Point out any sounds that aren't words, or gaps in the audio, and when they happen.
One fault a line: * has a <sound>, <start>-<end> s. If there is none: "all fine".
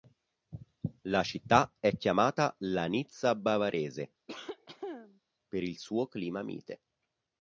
* has a cough, 4.3-5.2 s